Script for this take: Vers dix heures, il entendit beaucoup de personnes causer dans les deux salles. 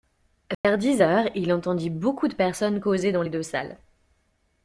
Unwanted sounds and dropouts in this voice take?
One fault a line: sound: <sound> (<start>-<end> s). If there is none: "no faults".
sound: dropout (0.5-0.6 s)